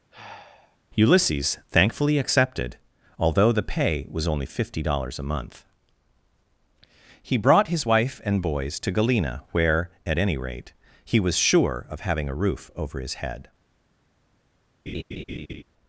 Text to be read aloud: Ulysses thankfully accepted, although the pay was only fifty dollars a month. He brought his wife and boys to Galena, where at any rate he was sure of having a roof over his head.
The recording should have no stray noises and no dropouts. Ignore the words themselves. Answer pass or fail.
fail